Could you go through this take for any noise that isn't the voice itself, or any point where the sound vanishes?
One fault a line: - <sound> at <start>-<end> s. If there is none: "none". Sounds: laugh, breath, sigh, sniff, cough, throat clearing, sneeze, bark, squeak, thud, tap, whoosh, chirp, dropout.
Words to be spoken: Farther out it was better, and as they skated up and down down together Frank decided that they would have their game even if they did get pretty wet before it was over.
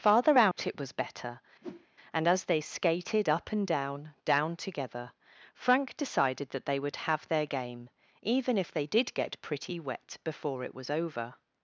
- dropout at 0.5-0.6 s
- whoosh at 1.6-1.9 s